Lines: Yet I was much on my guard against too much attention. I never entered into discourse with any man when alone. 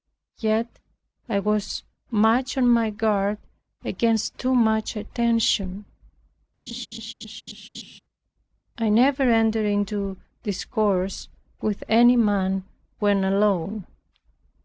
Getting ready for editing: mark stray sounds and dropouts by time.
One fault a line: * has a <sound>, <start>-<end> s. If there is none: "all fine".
* has a laugh, 6.7-8.0 s